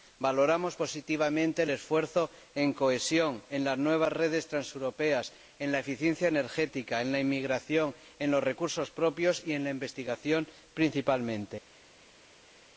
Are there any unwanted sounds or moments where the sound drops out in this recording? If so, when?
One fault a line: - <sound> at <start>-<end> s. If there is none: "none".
none